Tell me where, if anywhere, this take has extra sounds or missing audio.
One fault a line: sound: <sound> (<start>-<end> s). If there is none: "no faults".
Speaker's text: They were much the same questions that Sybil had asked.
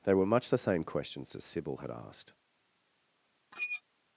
sound: squeak (3.5-3.8 s)